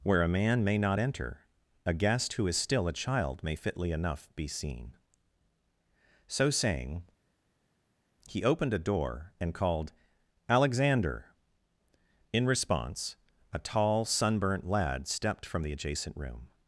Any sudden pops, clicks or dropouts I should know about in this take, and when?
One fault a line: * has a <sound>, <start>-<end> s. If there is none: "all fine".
all fine